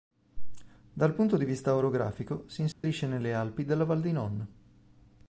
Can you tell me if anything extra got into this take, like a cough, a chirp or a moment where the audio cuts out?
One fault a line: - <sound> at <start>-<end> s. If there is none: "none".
- dropout at 2.7-2.8 s